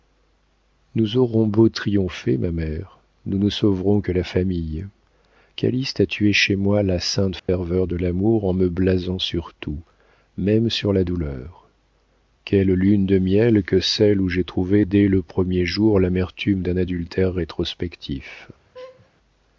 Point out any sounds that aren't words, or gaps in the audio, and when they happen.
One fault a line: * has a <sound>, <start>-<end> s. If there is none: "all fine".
* has a dropout, 7.4-7.5 s
* has a laugh, 18.7-19.1 s